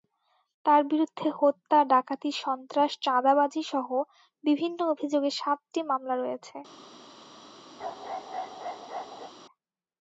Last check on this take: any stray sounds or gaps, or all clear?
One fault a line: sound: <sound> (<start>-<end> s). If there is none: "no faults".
sound: bark (7.8-9.3 s)